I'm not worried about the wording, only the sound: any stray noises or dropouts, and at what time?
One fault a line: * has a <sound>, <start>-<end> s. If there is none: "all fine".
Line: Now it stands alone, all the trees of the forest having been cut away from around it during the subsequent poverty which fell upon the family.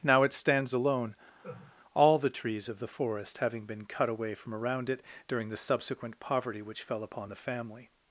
* has a laugh, 1.4-1.8 s